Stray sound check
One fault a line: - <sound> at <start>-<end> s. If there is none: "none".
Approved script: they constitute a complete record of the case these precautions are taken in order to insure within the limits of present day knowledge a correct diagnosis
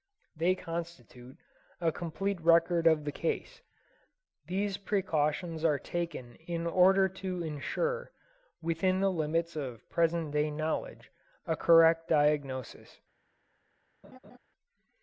- laugh at 14.0-14.4 s